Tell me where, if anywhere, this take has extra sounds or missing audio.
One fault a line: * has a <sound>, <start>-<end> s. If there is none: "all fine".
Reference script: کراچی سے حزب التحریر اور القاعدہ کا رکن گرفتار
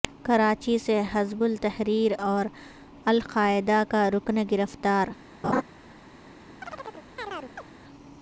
* has a laugh, 5.4-5.6 s
* has a chirp, 6.6-7.7 s